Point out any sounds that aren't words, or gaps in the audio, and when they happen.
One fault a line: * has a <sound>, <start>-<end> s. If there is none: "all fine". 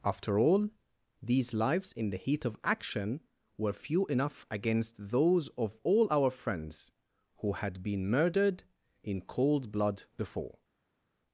all fine